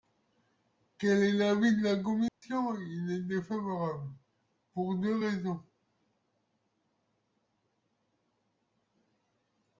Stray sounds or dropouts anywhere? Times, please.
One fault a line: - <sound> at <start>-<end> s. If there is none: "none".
- dropout at 2.3-2.4 s